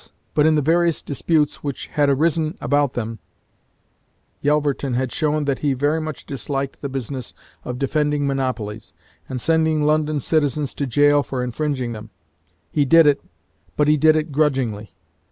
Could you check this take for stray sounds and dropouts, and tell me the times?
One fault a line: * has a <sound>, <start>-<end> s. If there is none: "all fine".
all fine